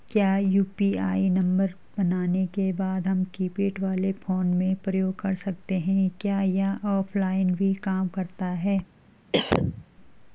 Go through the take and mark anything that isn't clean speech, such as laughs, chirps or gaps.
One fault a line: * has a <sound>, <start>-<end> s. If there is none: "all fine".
* has a cough, 9.3-9.8 s